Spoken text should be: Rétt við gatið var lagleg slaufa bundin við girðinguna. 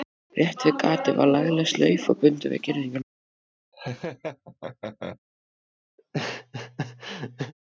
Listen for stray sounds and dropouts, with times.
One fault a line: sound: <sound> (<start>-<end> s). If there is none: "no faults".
sound: laugh (3.7-5.2 s)
sound: laugh (6.0-7.5 s)